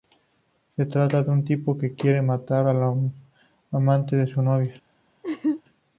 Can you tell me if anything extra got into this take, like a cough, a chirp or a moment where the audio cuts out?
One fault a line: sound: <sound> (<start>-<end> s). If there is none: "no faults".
sound: laugh (5.2-5.6 s)